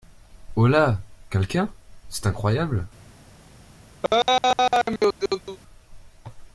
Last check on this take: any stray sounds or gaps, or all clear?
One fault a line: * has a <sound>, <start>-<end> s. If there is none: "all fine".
* has a laugh, 4.0-5.6 s